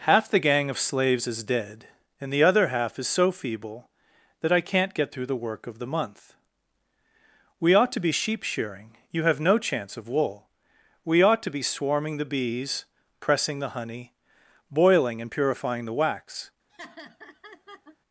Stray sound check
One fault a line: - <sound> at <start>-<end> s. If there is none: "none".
- laugh at 16.7-18.0 s